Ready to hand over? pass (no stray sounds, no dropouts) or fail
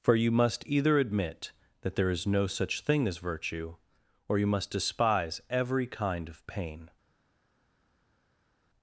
pass